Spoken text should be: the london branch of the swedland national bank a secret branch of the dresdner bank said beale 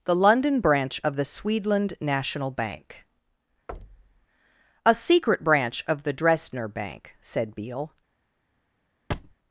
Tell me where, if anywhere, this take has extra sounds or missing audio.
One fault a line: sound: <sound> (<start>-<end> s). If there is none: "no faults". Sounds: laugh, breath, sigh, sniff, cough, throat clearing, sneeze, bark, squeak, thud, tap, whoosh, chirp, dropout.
sound: thud (3.7-4.3 s)
sound: thud (9.1-9.4 s)